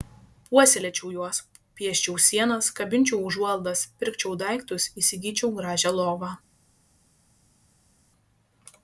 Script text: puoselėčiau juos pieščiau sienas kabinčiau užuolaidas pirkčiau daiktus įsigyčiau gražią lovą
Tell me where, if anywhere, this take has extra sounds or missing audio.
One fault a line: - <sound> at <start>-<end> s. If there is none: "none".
none